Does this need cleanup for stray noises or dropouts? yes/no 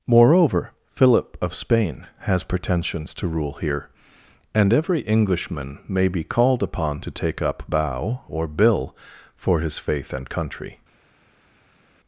no